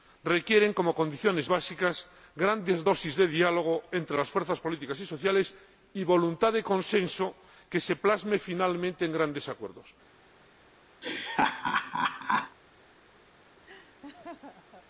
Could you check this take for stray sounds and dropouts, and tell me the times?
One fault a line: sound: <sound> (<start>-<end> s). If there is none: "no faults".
sound: laugh (11.0-12.6 s)
sound: laugh (13.7-14.9 s)